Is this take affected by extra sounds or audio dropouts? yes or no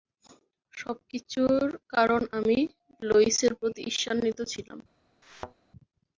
yes